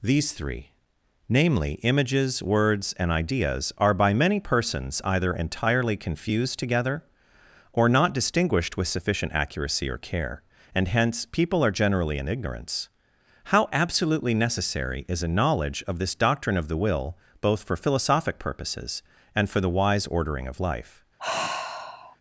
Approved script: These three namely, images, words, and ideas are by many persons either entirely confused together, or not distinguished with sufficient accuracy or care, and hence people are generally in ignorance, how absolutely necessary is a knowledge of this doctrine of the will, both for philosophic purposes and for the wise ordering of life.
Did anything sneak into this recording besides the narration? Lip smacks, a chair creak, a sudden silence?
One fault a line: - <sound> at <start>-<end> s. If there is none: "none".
- sigh at 21.2-22.2 s